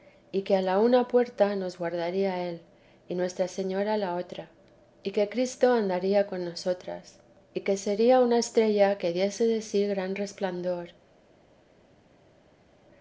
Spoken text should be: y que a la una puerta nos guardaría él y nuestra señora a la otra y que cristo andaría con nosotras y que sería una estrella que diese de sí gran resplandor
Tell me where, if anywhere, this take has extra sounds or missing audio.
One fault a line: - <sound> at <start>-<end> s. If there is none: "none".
none